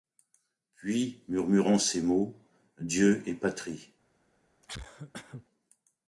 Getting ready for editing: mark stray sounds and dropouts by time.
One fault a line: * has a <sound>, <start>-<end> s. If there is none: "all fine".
* has a cough, 4.6-5.5 s